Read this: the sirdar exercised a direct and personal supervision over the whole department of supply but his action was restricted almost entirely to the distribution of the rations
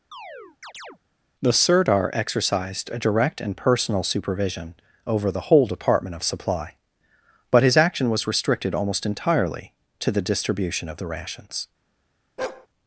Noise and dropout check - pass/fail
fail